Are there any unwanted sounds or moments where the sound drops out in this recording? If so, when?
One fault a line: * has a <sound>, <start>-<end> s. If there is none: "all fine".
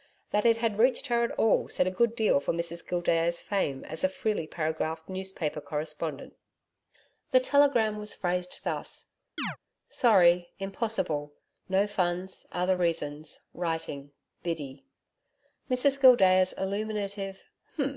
* has a chirp, 9.4-9.6 s